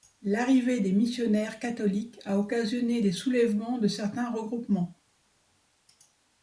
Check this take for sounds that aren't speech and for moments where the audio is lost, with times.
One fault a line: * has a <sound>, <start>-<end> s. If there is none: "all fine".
all fine